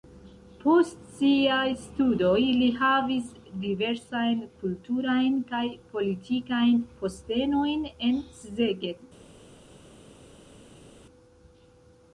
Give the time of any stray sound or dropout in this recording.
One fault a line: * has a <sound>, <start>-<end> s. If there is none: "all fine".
all fine